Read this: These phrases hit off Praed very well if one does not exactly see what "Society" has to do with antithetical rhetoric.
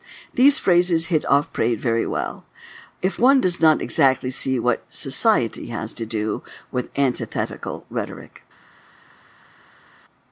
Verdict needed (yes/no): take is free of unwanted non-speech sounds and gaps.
yes